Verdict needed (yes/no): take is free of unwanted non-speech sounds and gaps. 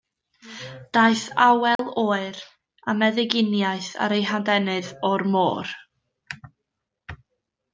no